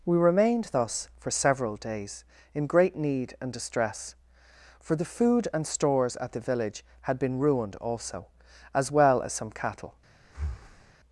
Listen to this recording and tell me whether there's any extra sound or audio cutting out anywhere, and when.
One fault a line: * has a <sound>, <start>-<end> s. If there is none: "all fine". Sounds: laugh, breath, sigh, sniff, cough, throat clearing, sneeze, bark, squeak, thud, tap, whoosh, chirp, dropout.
* has a breath, 10.2-10.9 s